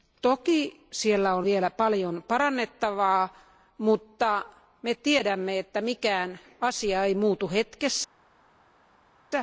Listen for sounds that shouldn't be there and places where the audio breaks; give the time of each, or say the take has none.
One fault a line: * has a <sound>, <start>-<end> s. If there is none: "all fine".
all fine